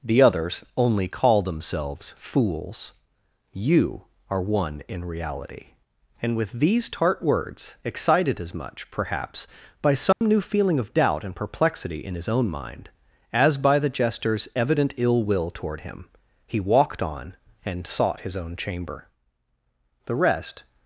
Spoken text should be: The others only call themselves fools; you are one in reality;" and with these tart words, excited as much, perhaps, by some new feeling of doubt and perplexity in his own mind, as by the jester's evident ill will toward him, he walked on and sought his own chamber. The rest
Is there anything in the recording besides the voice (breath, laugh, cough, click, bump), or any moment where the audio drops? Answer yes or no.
yes